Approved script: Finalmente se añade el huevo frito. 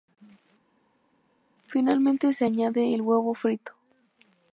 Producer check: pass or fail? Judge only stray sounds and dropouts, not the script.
pass